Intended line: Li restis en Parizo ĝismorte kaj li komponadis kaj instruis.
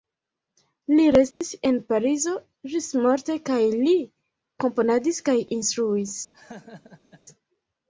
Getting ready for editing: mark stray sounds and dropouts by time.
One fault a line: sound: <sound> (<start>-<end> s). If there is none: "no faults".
sound: dropout (1.3-1.4 s)
sound: laugh (6.3-7.2 s)